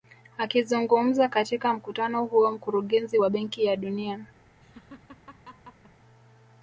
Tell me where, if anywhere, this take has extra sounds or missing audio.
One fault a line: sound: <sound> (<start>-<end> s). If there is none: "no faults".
sound: laugh (4.6-5.9 s)